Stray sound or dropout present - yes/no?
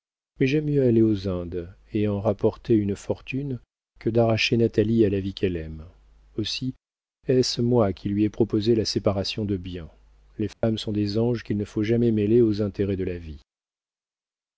yes